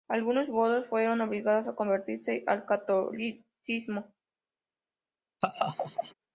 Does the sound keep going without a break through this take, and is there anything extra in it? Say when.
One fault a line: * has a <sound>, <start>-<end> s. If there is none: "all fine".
* has a laugh, 5.4-6.1 s